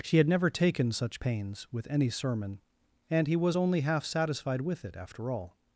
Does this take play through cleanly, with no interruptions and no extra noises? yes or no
yes